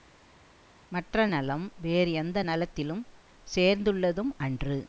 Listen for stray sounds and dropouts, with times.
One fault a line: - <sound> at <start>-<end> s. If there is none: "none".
none